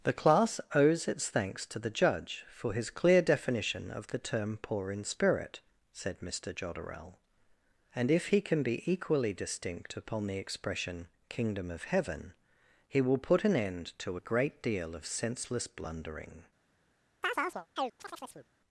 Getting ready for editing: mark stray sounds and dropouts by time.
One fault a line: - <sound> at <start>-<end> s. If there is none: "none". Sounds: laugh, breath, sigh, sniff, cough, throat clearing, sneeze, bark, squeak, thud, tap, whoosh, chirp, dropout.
- chirp at 17.2-18.5 s